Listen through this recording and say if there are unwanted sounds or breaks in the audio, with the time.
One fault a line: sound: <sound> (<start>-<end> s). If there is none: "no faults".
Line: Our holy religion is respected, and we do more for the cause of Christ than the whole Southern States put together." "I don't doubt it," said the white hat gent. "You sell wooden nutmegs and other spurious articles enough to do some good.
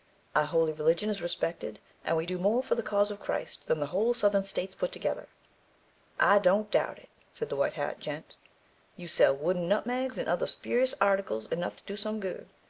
no faults